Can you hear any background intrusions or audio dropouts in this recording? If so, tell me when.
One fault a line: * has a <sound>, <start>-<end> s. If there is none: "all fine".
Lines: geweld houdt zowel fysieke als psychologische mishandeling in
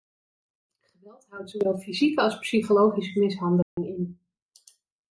* has a dropout, 3.6-3.8 s